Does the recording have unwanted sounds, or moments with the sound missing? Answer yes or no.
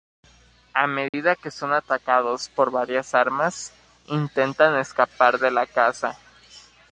yes